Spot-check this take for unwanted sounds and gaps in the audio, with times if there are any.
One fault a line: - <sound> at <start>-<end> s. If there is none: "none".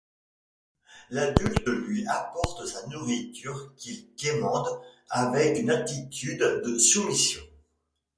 none